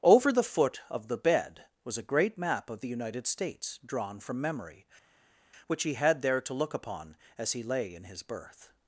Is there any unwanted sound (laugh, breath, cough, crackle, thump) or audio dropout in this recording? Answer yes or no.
no